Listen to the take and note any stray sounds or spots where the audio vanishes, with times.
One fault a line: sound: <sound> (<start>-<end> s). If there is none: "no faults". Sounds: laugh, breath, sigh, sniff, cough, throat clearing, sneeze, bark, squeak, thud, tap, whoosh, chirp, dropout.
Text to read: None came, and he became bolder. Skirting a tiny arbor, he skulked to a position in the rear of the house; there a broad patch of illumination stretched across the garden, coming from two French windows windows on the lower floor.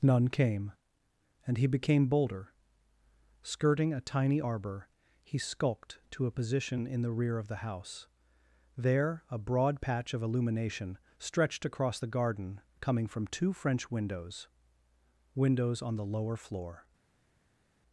no faults